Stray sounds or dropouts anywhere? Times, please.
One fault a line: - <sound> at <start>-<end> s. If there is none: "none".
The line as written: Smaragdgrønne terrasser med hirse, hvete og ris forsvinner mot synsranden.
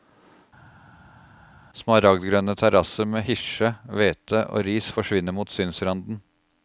none